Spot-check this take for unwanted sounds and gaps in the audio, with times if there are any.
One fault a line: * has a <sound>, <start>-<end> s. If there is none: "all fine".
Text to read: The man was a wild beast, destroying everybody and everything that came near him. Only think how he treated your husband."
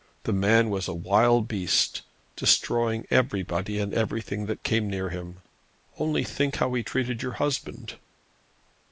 all fine